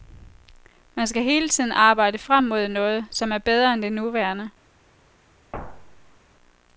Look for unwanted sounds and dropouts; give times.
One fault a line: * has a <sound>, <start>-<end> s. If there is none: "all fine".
* has a thud, 5.5-6.2 s